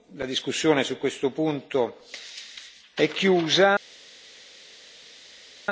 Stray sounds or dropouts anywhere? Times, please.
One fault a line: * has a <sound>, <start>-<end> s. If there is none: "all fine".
all fine